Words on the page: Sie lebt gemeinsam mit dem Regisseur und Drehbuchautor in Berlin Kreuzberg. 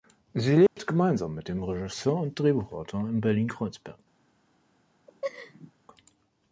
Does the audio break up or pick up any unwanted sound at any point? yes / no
yes